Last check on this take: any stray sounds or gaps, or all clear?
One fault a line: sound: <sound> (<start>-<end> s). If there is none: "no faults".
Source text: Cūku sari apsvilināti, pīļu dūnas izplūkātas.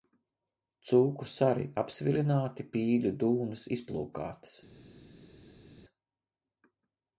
no faults